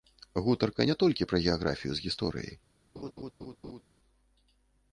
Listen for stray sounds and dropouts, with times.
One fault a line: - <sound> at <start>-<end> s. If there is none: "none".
- laugh at 3.0-3.8 s